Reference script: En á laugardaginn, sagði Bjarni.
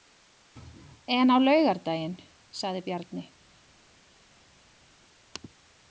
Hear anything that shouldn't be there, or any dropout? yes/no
no